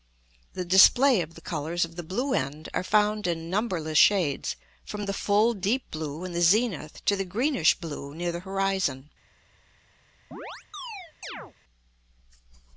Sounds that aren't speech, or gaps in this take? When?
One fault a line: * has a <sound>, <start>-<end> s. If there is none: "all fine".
* has a chirp, 10.3-11.5 s